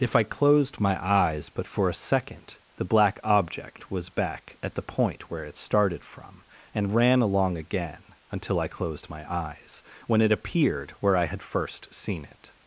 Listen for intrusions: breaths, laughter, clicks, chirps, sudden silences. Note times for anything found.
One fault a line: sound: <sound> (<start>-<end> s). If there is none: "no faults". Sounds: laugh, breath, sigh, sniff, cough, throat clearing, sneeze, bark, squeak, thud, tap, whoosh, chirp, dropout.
no faults